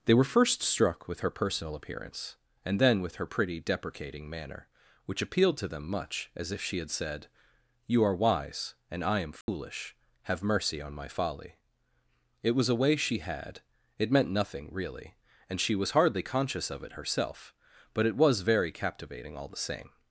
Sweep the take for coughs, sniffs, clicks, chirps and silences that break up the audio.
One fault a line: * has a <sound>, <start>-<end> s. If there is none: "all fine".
* has a dropout, 9.4-9.5 s